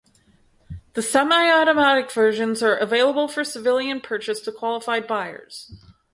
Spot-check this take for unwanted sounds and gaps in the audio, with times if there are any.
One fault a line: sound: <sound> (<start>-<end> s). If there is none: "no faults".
no faults